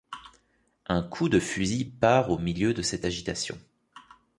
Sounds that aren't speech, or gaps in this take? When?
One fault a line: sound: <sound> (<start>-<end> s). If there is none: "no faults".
no faults